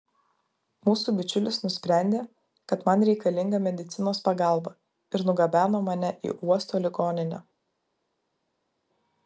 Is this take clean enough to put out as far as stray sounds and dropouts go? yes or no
yes